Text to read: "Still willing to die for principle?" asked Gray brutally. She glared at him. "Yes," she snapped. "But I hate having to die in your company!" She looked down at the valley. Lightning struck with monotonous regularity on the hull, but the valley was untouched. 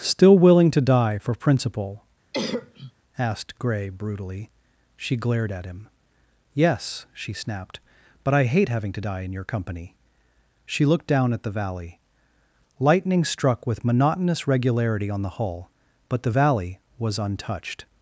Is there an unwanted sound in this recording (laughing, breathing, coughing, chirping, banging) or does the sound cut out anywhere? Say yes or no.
yes